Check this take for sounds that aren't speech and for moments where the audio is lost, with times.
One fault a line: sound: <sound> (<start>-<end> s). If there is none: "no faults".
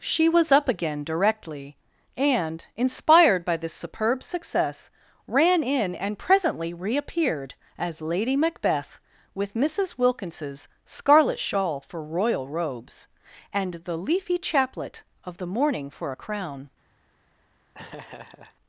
sound: laugh (17.7-18.6 s)